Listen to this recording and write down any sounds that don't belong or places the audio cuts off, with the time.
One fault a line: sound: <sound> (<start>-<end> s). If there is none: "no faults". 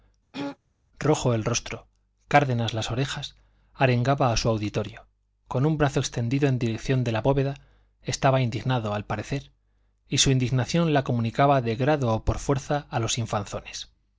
sound: throat clearing (0.3-0.6 s)